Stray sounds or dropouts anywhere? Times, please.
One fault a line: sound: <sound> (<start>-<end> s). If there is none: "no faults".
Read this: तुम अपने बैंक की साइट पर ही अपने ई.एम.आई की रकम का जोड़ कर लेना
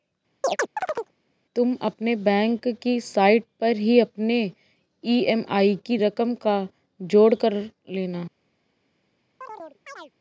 sound: chirp (0.4-1.1 s)
sound: chirp (9.4-10.1 s)